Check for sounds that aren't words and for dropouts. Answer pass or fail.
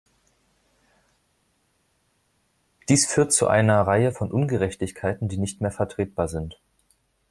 pass